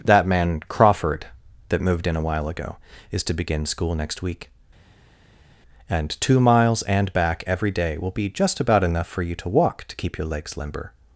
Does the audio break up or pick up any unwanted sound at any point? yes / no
no